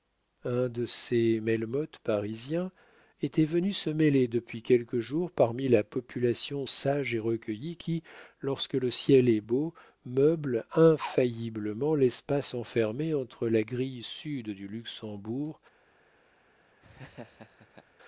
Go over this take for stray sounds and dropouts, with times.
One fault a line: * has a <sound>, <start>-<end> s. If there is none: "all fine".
* has a laugh, 16.8-17.9 s